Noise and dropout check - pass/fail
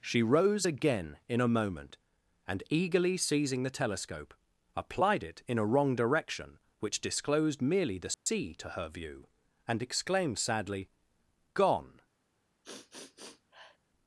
fail